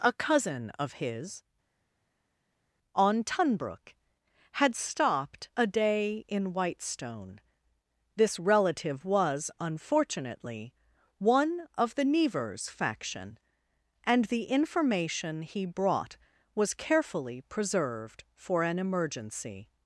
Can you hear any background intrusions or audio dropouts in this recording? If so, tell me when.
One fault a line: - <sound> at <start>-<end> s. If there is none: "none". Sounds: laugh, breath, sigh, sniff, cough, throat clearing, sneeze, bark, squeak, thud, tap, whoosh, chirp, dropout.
none